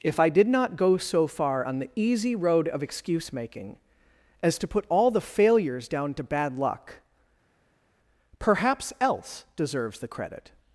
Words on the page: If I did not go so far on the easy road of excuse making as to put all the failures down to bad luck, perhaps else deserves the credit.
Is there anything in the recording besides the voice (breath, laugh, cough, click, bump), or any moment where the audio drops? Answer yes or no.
no